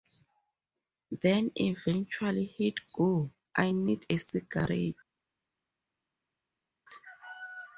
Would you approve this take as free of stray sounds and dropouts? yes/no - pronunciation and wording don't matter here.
yes